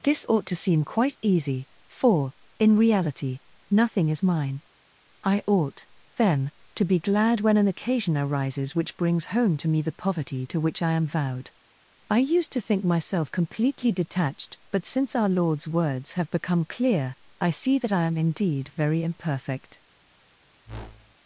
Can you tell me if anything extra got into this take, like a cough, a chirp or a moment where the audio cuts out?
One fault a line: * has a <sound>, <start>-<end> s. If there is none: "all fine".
* has a whoosh, 20.6-21.1 s